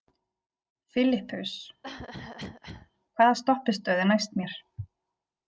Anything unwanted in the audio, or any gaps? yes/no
yes